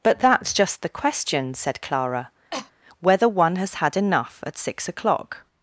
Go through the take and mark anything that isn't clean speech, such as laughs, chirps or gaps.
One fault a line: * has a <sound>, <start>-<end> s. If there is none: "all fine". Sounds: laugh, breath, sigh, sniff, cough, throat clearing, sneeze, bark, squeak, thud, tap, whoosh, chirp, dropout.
* has a cough, 2.5-2.7 s